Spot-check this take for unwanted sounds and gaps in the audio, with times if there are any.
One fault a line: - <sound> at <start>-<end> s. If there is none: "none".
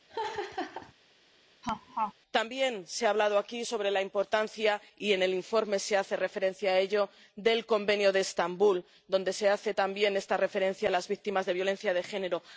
- laugh at 0.1-0.9 s
- laugh at 1.6-2.1 s